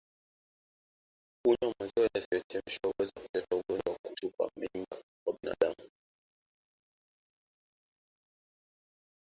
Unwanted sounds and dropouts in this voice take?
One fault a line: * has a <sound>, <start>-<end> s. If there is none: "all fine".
all fine